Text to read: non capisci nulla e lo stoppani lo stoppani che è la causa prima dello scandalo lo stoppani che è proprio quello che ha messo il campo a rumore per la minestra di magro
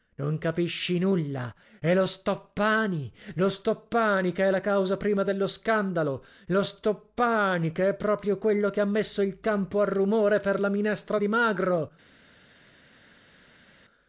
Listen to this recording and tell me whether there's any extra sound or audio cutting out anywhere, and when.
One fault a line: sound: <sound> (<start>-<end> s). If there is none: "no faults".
no faults